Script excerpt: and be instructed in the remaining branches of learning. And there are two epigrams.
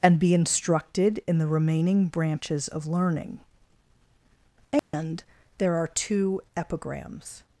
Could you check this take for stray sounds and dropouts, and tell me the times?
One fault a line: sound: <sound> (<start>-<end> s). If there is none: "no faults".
sound: dropout (4.8-4.9 s)